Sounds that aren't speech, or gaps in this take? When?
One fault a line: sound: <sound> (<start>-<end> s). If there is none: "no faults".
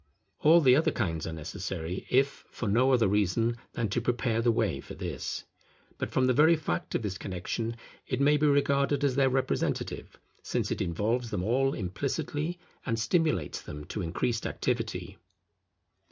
no faults